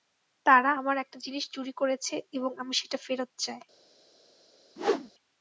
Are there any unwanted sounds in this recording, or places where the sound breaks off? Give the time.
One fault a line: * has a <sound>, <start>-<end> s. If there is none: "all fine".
* has a whoosh, 4.8-5.1 s